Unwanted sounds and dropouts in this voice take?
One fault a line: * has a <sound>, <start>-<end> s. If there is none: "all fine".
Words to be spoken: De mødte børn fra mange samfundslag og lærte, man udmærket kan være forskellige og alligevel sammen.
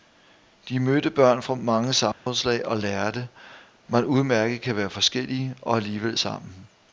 * has a dropout, 2.1-2.3 s